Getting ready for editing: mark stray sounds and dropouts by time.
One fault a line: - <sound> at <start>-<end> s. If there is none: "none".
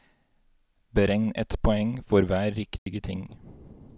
- dropout at 2.8-2.9 s